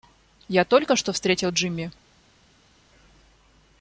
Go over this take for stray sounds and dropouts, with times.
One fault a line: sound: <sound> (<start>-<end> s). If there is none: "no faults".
no faults